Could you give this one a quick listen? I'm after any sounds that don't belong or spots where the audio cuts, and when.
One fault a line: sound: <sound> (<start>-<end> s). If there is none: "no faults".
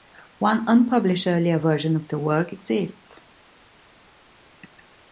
no faults